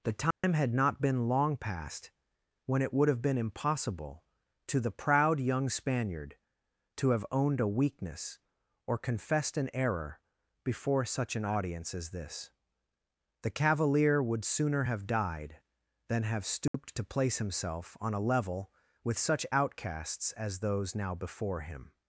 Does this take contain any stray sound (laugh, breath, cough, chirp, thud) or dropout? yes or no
yes